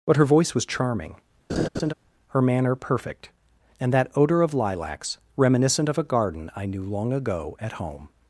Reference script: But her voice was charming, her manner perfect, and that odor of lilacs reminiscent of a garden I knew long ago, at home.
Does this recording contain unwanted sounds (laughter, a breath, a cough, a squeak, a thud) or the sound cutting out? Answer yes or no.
yes